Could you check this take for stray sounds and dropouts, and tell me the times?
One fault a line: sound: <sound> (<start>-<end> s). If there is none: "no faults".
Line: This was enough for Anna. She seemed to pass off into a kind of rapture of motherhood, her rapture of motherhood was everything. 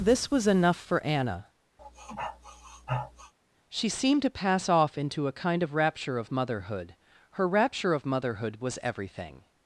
sound: sniff (1.8-3.3 s)